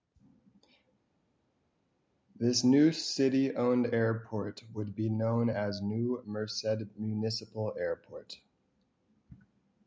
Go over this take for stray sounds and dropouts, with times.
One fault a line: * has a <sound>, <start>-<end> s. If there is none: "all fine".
all fine